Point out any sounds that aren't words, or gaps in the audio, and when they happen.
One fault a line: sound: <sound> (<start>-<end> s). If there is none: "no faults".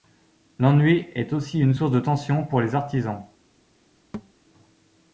sound: thud (4.1-4.3 s)